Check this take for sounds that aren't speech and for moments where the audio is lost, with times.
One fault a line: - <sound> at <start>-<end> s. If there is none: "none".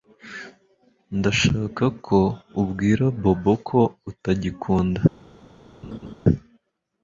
- laugh at 5.8-6.1 s